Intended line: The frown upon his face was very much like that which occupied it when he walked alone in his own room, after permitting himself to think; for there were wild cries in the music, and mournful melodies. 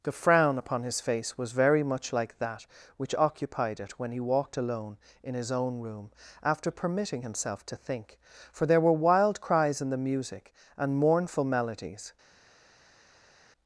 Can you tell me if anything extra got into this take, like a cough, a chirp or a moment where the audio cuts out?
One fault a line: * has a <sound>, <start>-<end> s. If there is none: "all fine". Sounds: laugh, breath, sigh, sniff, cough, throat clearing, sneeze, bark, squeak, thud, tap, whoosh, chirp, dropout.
all fine